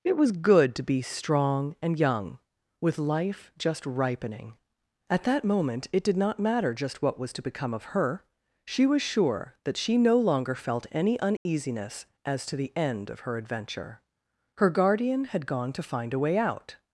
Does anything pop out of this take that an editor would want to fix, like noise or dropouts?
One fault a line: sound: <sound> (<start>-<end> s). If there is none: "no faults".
sound: dropout (11.4-11.5 s)